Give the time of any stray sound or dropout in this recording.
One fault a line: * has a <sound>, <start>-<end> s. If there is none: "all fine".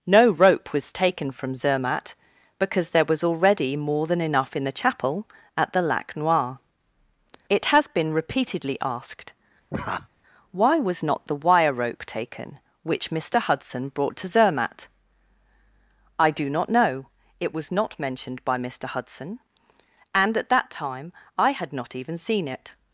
* has a laugh, 9.7-10.1 s